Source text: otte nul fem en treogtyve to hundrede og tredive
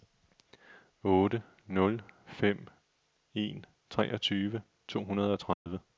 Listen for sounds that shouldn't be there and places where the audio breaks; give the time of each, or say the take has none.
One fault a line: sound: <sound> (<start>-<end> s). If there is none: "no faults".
sound: dropout (5.5-5.7 s)